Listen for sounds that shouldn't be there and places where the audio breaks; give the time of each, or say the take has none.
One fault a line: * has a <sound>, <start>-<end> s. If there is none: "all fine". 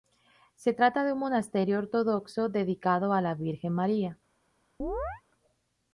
* has a chirp, 4.8-5.2 s